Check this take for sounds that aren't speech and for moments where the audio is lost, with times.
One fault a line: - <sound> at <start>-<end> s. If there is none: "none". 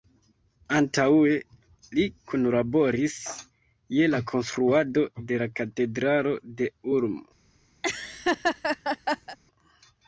- laugh at 7.8-9.4 s